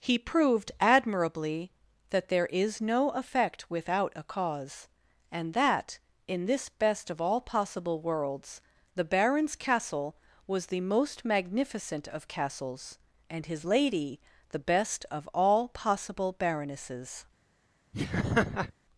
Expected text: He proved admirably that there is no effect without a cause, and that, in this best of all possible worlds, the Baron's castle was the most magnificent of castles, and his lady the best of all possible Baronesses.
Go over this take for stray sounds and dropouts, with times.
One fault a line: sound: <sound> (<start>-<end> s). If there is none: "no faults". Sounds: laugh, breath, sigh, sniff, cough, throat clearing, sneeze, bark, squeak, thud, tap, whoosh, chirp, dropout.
sound: laugh (17.9-18.7 s)